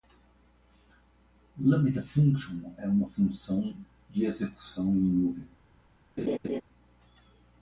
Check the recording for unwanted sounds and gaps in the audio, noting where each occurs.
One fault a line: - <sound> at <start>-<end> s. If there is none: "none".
- laugh at 6.2-6.6 s